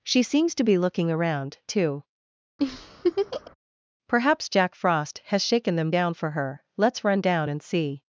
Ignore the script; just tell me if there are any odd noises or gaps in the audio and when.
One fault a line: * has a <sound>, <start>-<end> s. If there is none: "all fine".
* has a laugh, 2.6-3.5 s